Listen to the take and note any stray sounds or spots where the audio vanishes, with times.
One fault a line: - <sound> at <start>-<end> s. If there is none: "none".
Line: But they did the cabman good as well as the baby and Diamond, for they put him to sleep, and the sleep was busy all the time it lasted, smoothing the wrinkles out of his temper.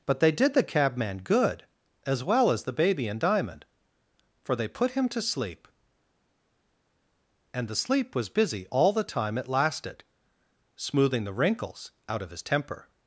none